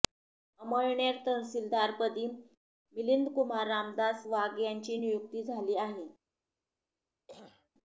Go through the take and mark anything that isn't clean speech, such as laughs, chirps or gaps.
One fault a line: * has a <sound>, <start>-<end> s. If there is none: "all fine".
* has a throat clearing, 7.3-7.7 s